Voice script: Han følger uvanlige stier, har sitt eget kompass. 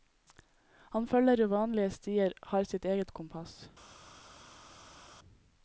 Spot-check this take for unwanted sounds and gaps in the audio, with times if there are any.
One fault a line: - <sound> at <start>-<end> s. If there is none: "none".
none